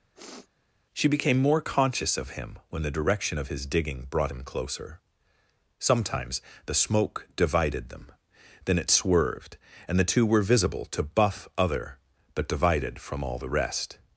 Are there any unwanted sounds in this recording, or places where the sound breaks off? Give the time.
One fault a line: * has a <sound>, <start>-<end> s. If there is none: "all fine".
* has a sniff, 0.1-0.5 s